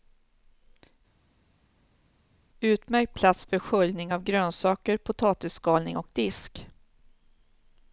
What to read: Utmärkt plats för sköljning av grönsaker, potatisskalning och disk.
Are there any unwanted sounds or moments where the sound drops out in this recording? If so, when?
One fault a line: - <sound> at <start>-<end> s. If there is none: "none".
none